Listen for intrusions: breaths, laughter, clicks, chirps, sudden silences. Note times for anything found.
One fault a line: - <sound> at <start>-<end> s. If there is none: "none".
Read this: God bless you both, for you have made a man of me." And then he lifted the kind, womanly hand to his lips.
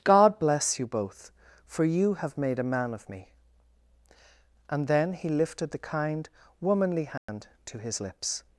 - dropout at 7.2-7.3 s